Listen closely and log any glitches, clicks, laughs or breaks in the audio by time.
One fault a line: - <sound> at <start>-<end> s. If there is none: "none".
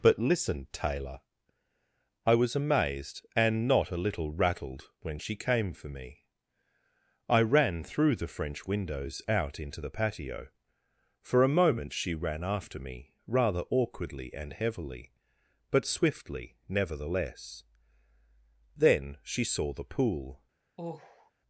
- sigh at 20.8-21.3 s